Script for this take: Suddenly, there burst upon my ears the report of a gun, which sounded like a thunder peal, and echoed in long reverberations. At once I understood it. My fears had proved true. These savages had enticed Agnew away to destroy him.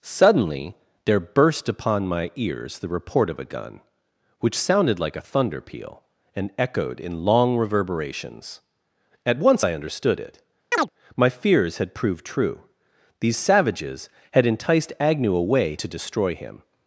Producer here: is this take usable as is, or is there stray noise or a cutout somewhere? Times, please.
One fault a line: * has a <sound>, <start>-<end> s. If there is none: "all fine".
* has a chirp, 10.7-10.9 s